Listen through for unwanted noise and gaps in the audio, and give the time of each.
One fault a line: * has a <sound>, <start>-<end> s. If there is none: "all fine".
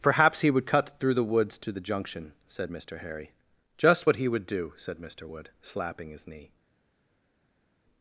all fine